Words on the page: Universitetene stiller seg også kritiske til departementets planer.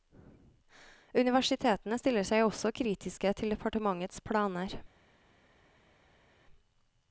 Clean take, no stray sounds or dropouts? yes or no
yes